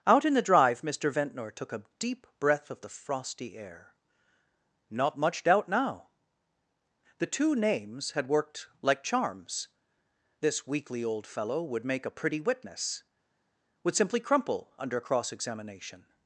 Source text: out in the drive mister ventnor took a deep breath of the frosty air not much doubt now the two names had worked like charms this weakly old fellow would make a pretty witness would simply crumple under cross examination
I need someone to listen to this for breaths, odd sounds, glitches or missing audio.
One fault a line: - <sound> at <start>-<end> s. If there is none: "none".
none